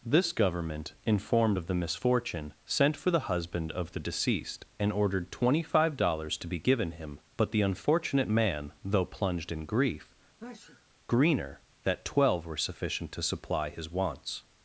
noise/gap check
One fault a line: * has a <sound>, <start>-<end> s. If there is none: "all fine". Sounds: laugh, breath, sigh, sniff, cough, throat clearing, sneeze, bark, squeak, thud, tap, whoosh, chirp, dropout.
* has a sneeze, 10.4-10.9 s